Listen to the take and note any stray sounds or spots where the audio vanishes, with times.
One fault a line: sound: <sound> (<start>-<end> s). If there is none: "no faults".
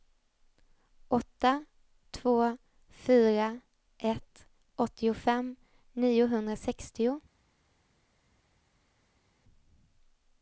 no faults